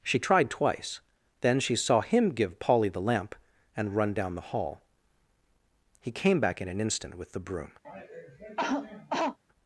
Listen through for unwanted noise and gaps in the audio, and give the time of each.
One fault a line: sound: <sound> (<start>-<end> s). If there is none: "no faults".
sound: cough (7.8-9.4 s)